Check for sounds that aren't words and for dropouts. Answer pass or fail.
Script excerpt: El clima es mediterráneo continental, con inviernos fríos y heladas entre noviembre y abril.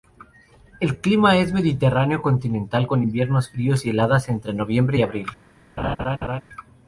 fail